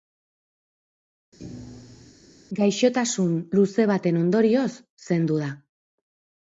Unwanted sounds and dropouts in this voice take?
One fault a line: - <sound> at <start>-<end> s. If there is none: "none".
- thud at 1.4-2.1 s